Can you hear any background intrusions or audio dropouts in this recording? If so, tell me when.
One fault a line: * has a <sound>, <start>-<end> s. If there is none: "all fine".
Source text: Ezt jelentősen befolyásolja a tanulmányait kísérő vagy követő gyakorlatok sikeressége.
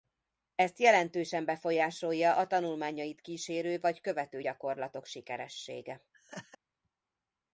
* has a laugh, 6.1-6.6 s